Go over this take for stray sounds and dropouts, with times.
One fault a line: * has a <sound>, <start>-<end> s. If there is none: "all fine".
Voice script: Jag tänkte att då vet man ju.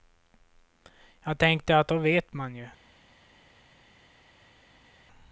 all fine